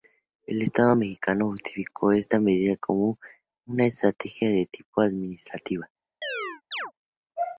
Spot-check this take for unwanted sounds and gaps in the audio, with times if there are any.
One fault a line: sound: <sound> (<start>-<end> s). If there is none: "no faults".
sound: chirp (6.2-6.9 s)